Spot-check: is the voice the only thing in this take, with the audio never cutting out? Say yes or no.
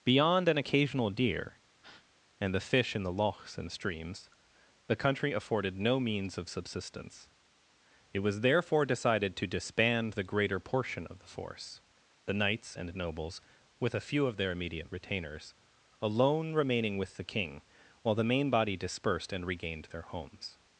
no